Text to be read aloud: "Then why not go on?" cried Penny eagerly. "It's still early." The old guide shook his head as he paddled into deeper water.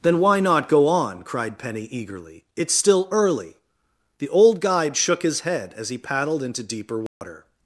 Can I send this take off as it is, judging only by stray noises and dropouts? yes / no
no